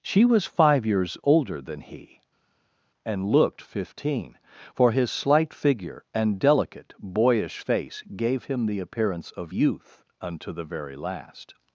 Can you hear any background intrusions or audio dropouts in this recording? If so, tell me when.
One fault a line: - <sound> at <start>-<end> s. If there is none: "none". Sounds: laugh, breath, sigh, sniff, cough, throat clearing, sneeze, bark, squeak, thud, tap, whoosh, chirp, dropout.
none